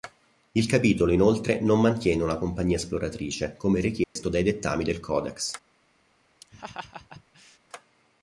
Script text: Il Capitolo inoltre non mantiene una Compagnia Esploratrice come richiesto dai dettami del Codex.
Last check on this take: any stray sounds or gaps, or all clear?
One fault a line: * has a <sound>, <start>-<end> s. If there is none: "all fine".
* has a dropout, 4.0-4.2 s
* has a laugh, 6.4-7.6 s